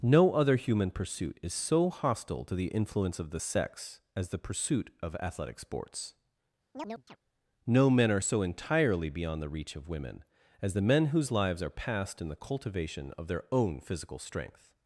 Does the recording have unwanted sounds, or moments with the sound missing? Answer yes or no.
yes